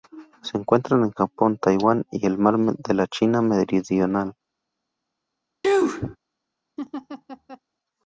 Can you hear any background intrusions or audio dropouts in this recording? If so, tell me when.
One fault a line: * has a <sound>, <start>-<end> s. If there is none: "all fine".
* has a sneeze, 5.6-6.2 s
* has a laugh, 6.8-7.6 s